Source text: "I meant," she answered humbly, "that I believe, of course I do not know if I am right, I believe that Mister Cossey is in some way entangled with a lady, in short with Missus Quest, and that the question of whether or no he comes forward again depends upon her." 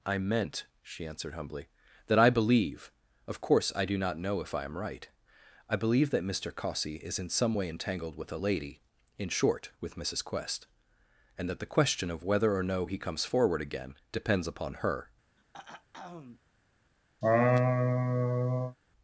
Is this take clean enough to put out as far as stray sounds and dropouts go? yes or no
no